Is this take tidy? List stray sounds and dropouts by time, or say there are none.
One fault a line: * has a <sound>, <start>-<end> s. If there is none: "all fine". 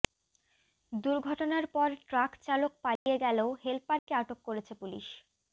* has a dropout, 3.0-3.1 s
* has a dropout, 4.0-4.1 s